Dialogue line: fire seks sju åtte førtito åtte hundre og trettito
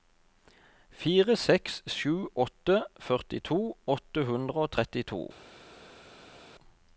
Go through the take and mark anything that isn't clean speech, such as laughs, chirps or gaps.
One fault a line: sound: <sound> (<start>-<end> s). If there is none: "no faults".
no faults